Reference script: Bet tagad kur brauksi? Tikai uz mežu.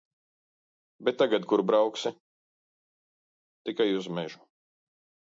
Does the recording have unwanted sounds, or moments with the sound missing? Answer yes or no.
no